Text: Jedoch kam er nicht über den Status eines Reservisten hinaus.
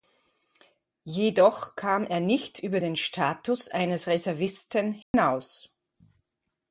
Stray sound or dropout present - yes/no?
yes